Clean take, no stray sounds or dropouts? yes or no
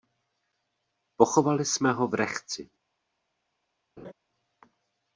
no